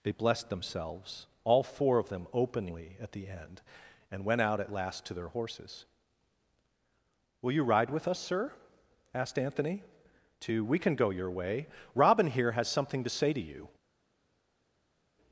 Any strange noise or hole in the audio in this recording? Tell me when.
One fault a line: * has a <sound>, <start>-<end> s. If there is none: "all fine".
all fine